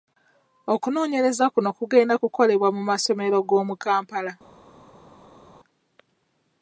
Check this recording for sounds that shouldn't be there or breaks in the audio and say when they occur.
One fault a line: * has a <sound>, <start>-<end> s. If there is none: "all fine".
all fine